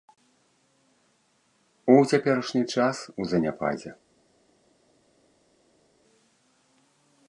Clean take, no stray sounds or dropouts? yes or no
yes